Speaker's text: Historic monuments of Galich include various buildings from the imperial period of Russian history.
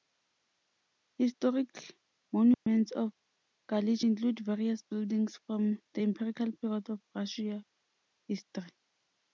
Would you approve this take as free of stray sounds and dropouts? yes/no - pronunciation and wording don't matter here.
no